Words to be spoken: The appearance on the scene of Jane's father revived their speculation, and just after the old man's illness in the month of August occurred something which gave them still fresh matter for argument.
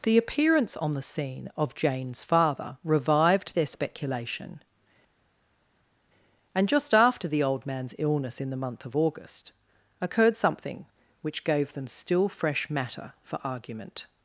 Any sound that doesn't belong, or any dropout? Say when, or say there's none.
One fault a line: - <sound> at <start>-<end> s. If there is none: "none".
none